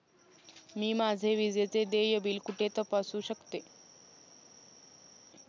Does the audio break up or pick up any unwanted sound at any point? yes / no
no